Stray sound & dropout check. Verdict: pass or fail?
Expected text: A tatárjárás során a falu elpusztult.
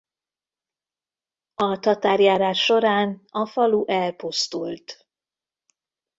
pass